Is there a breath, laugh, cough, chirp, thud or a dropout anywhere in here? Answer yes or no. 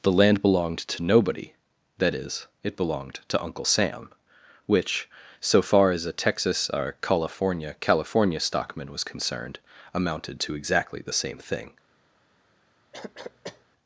yes